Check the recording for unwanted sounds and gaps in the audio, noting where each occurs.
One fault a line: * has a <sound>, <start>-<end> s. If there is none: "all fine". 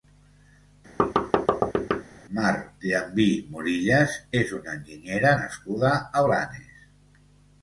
* has a thud, 1.0-2.0 s